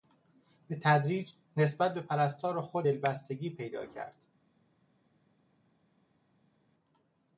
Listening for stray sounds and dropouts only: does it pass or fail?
pass